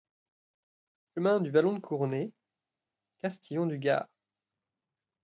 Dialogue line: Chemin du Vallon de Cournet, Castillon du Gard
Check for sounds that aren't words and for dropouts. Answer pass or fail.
pass